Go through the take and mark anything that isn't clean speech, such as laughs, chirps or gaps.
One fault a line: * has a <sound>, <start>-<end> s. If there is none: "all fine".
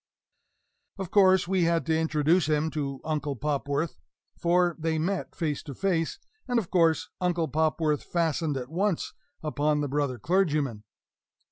all fine